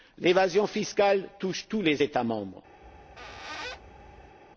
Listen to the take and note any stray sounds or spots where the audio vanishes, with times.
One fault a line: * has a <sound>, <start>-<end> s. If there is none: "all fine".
* has a squeak, 2.8-4.4 s